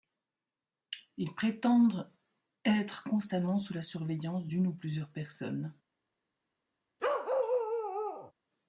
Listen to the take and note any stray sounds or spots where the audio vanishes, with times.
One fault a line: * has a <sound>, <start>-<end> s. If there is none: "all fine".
* has a bark, 7.0-8.3 s